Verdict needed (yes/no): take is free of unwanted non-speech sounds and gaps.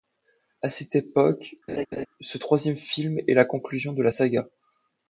no